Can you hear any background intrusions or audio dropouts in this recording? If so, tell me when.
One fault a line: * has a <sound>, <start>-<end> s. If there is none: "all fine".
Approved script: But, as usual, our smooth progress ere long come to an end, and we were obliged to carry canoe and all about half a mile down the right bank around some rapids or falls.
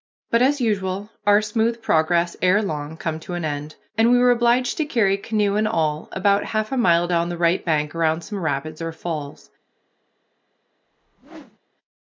* has a whoosh, 10.8-11.6 s